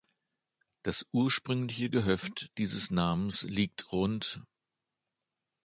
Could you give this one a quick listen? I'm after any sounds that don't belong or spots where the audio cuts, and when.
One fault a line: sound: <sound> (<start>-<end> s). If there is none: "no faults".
no faults